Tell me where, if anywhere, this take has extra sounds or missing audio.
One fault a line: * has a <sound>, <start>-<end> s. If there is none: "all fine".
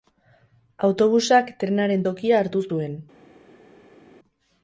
all fine